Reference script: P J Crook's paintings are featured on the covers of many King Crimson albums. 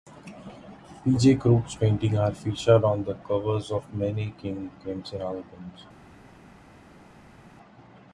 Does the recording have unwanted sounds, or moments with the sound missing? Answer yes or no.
no